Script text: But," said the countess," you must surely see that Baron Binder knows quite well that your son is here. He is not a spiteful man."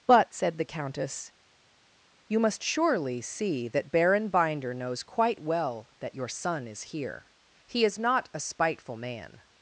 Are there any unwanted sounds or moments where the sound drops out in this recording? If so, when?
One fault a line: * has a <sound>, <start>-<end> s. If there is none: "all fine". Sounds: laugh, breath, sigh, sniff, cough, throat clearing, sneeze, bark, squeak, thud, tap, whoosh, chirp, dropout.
all fine